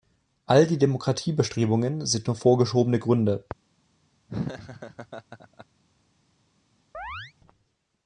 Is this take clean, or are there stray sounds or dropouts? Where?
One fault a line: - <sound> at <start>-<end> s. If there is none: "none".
- laugh at 4.3-5.7 s
- chirp at 6.9-7.3 s